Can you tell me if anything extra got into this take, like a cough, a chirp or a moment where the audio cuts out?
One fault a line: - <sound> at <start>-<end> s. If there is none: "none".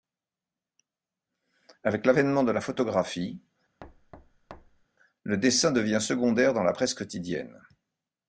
- thud at 3.8-4.9 s